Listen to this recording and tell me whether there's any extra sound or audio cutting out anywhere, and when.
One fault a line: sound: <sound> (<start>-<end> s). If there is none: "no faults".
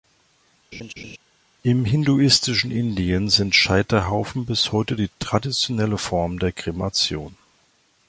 sound: laugh (0.7-1.2 s)